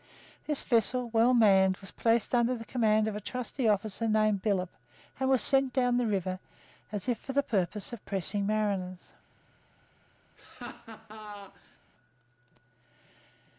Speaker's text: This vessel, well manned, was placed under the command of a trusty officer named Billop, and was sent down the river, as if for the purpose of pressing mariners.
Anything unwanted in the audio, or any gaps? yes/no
yes